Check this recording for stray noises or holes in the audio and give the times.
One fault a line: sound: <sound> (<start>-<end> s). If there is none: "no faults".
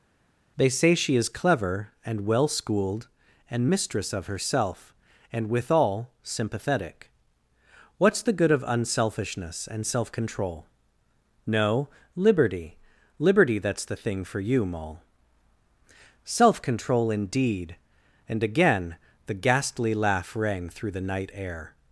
no faults